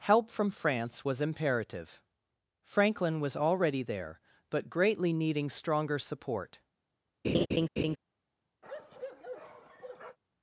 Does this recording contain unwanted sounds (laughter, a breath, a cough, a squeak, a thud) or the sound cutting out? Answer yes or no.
yes